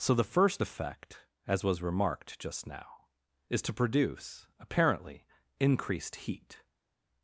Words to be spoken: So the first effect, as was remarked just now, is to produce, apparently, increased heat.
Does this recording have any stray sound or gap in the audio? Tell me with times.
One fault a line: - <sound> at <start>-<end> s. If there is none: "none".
none